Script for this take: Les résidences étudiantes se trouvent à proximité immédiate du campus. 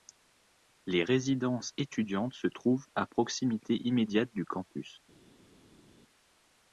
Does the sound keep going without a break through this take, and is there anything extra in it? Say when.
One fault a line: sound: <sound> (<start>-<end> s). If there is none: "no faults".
no faults